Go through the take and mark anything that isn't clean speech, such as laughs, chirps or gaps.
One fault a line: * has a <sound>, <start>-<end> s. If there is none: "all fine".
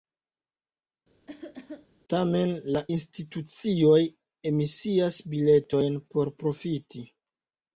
* has a cough, 1.3-1.9 s